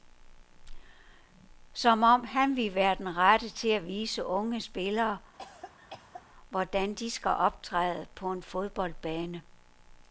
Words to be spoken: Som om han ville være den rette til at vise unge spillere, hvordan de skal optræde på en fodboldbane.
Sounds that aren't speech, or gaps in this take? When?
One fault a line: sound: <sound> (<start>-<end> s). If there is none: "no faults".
sound: cough (5.4-6.2 s)